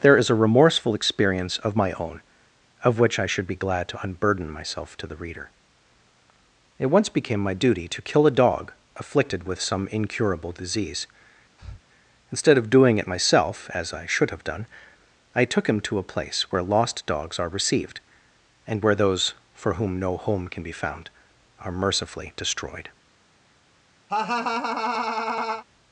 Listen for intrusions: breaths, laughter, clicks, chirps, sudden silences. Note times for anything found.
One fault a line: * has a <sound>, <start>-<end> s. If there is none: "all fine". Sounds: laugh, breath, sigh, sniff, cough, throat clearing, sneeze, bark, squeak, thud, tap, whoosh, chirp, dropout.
* has a breath, 11.6-11.8 s
* has a laugh, 24.1-25.6 s